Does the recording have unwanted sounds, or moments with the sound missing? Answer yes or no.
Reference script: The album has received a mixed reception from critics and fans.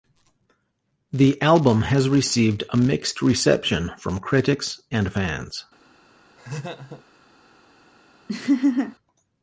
yes